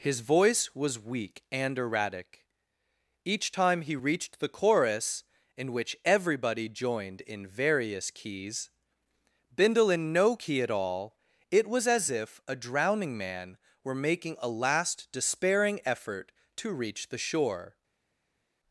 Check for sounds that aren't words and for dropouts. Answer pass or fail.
pass